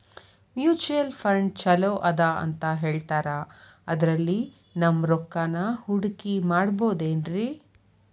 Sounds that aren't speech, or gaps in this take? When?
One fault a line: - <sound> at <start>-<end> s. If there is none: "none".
none